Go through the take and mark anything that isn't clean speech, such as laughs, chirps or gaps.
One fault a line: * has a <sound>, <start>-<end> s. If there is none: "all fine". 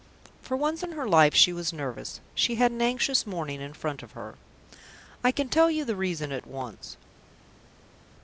all fine